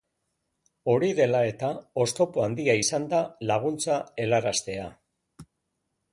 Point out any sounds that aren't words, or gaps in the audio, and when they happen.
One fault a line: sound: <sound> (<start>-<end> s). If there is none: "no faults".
no faults